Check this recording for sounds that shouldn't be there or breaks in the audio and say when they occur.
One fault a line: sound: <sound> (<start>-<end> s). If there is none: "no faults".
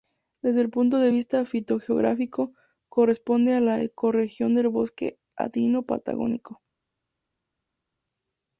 no faults